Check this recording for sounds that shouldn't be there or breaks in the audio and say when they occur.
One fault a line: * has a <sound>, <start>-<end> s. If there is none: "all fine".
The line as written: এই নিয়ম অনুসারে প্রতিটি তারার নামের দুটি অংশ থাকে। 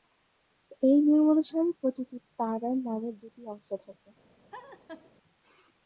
* has a laugh, 4.5-5.1 s